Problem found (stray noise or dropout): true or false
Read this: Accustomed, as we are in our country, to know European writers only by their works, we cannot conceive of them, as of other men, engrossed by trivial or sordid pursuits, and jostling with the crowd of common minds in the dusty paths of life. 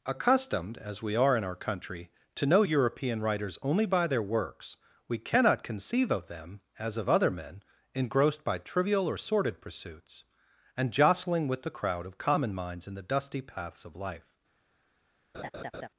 true